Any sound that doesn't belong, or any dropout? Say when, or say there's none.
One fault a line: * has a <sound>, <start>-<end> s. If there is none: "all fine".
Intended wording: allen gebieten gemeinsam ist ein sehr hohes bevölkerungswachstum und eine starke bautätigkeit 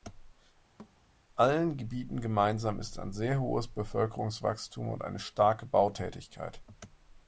* has a thud, 0.8-1.0 s